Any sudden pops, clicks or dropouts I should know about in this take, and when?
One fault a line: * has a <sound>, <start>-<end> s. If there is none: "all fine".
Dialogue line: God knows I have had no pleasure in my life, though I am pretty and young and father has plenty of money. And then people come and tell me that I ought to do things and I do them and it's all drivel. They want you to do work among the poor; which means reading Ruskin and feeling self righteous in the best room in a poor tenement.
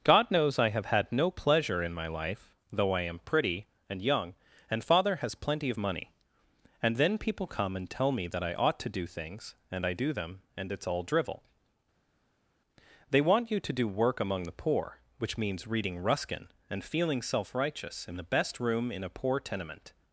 all fine